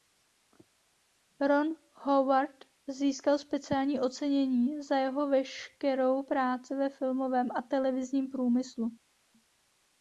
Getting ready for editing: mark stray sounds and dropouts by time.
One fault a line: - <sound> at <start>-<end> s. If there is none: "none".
none